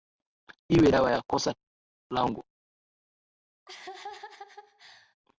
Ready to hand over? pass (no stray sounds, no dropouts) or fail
fail